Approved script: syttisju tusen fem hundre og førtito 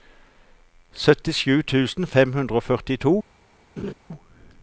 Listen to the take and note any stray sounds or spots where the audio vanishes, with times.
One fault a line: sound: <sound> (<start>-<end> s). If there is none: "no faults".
sound: laugh (3.8-3.9 s)